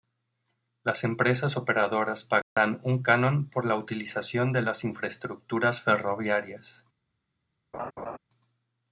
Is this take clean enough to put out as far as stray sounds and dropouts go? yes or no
no